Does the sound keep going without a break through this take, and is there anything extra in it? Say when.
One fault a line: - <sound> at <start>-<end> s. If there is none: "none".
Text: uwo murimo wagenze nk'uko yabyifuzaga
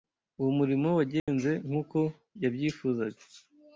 - dropout at 1.2-1.3 s